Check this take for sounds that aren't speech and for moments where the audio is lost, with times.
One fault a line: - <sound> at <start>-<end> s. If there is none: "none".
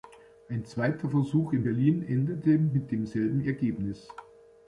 none